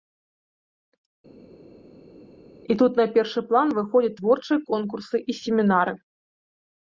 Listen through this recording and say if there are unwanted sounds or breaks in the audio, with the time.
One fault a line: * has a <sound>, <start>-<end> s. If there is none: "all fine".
all fine